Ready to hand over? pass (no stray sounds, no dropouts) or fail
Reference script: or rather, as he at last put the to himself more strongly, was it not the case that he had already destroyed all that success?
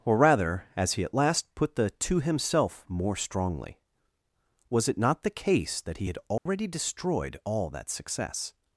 fail